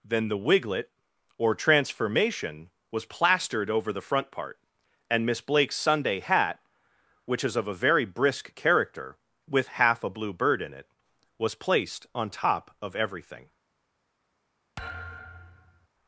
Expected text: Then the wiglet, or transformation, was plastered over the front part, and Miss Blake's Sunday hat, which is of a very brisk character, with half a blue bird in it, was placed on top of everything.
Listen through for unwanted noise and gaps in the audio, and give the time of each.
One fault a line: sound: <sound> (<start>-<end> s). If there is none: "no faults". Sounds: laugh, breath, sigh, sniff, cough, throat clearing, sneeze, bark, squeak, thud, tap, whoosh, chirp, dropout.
sound: thud (14.8-15.9 s)